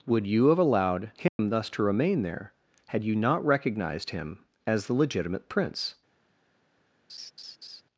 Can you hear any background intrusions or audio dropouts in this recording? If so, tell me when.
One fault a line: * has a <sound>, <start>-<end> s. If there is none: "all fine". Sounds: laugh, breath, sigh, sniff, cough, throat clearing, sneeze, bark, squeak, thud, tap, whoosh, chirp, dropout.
* has a dropout, 1.3-1.4 s
* has a laugh, 7.1-7.8 s